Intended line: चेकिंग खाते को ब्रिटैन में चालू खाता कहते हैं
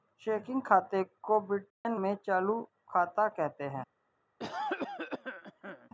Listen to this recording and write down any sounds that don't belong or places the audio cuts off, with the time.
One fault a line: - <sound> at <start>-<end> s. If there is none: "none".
- dropout at 1.7-1.8 s
- cough at 4.4-5.9 s